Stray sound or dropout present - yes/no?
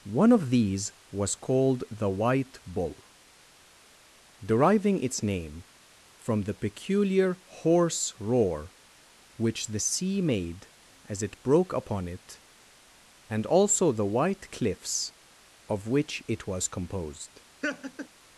yes